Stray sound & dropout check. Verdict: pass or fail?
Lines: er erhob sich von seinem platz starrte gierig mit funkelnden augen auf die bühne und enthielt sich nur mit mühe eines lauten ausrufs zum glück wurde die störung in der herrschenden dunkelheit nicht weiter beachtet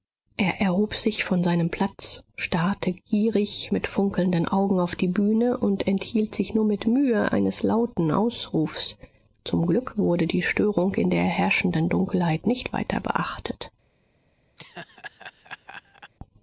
fail